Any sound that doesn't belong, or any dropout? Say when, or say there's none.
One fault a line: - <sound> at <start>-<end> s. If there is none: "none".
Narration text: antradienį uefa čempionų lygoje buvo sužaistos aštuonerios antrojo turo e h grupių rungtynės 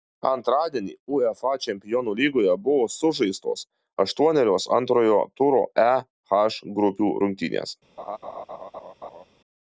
- laugh at 8.0-9.2 s